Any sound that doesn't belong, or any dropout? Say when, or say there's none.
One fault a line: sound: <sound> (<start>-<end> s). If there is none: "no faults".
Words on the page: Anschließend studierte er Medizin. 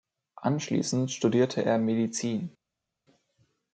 no faults